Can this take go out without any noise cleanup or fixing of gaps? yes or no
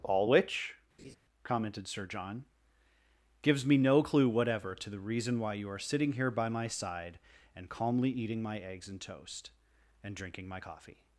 no